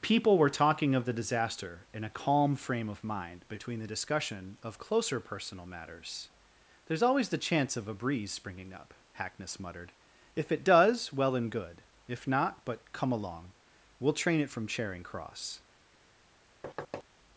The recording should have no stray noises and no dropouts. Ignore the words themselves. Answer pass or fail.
fail